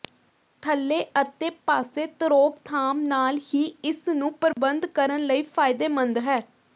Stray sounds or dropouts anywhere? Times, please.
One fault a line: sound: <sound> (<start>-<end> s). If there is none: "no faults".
sound: dropout (4.5-4.6 s)